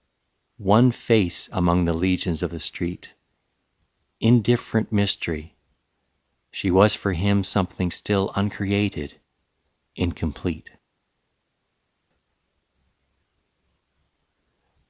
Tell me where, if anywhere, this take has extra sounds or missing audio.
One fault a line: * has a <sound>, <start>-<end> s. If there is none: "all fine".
all fine